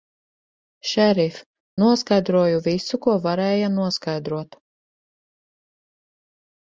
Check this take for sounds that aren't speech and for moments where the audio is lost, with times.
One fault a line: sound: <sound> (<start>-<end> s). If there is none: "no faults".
no faults